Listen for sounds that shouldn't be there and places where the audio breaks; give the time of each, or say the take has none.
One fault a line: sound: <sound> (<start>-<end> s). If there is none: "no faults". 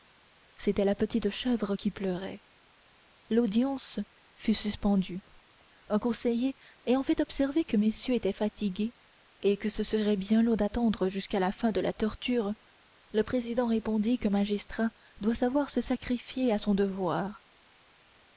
no faults